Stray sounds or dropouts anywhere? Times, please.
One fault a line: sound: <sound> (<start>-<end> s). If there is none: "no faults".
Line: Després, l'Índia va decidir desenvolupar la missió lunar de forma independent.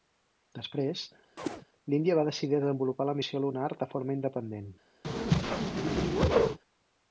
sound: chirp (1.4-1.6 s)
sound: whoosh (5.0-6.6 s)